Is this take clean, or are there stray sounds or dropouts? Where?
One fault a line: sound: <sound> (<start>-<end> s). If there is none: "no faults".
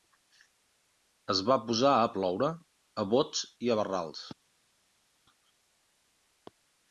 no faults